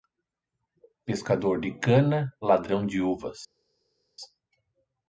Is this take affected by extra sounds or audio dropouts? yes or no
no